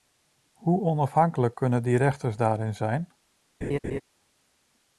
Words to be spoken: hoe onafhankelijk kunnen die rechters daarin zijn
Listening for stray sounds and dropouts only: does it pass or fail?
fail